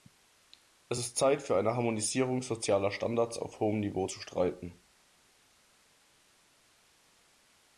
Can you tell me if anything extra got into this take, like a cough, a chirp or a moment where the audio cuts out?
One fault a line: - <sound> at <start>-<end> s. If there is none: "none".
none